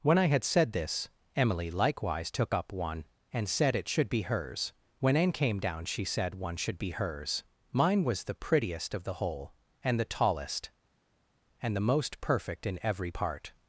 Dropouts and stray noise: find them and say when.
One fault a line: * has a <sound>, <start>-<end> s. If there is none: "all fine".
all fine